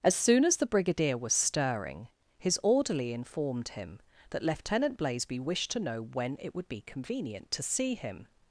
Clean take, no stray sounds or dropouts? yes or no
yes